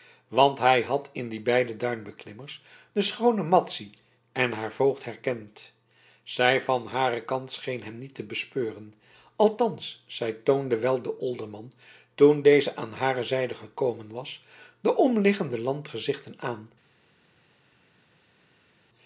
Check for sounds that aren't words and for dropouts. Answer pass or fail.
pass